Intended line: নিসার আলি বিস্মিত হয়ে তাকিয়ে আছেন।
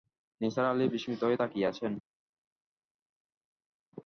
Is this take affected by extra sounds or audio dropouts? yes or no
no